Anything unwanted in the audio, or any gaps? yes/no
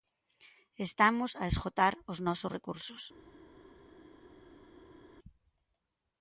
no